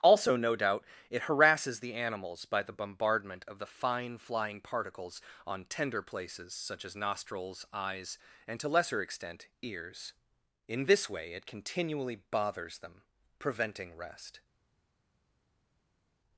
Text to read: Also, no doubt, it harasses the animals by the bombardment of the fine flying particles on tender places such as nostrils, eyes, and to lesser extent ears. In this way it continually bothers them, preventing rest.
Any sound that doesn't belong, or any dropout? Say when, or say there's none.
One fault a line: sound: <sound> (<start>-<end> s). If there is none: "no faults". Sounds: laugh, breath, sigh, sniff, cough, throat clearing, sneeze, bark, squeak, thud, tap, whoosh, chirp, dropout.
no faults